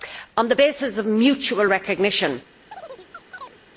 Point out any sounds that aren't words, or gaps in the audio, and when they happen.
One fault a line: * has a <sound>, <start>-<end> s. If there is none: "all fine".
* has a chirp, 2.7-3.6 s